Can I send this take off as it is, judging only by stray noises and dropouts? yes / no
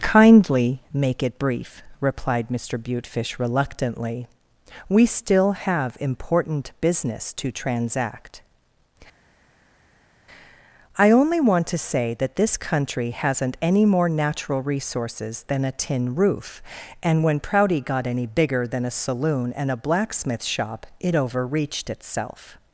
yes